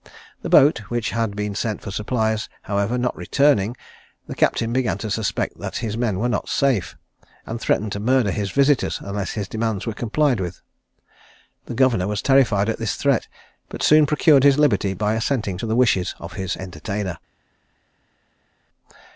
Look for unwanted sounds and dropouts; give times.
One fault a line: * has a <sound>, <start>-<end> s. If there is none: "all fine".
all fine